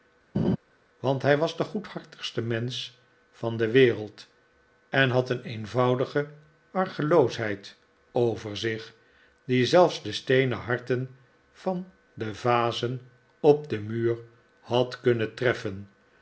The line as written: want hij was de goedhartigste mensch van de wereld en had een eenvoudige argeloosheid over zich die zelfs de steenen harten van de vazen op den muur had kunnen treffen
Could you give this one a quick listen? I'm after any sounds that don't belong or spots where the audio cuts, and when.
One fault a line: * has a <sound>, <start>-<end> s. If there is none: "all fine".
* has a laugh, 0.3-0.6 s